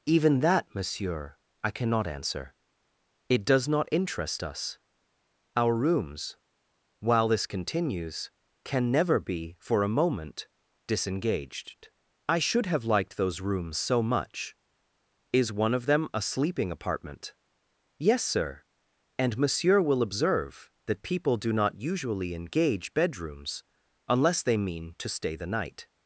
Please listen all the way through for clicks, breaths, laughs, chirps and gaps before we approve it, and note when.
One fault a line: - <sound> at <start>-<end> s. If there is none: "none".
none